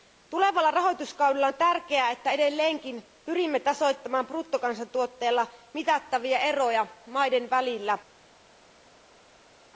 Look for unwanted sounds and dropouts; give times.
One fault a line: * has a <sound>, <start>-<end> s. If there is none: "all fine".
all fine